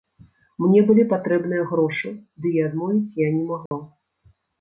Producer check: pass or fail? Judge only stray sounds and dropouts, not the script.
fail